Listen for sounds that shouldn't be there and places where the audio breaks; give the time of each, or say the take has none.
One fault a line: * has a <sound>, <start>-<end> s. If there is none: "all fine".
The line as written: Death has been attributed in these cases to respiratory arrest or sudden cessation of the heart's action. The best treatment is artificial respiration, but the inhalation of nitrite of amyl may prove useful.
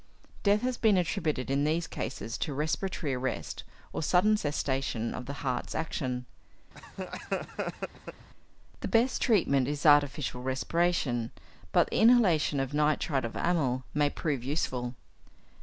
* has a laugh, 6.7-8.3 s